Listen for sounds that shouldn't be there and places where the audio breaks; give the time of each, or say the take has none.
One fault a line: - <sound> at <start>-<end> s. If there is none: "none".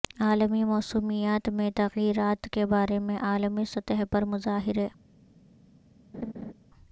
- laugh at 6.1-6.5 s